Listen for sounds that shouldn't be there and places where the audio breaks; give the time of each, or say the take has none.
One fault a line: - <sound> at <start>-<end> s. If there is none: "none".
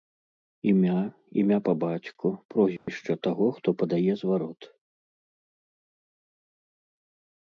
- dropout at 2.8-2.9 s